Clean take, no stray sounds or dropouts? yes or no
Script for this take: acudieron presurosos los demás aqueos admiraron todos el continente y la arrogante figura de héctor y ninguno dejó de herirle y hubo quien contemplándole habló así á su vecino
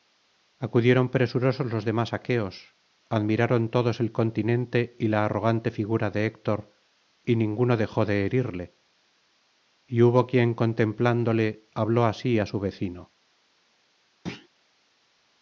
no